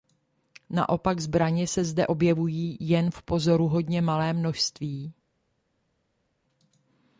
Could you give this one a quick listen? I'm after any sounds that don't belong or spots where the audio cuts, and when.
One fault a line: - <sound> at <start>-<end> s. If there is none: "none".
none